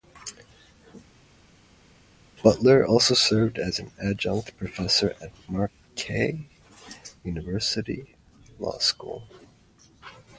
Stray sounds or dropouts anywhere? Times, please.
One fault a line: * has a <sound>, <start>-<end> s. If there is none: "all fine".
all fine